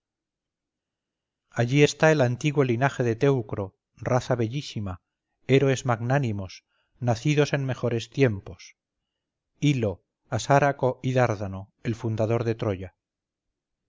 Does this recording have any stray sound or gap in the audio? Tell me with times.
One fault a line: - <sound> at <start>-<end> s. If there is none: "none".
none